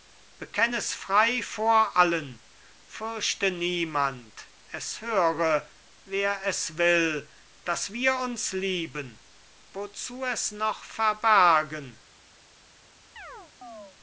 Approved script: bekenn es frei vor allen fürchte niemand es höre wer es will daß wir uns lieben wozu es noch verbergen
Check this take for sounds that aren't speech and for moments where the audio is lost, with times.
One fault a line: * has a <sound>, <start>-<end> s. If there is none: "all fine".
* has a chirp, 13.2-14.0 s